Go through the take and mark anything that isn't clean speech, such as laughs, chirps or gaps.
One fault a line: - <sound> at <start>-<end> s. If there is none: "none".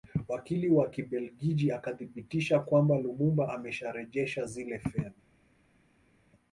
none